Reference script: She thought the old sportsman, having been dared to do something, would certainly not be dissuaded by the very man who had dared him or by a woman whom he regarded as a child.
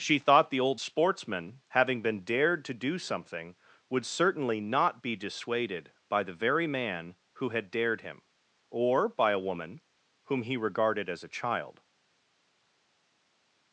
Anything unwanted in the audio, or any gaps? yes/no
no